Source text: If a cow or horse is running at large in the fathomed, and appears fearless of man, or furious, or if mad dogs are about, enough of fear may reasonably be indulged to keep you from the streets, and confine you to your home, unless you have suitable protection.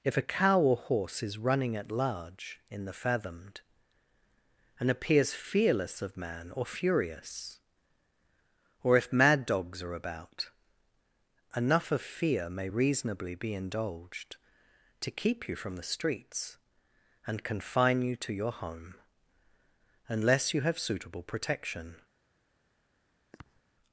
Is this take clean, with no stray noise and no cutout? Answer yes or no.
no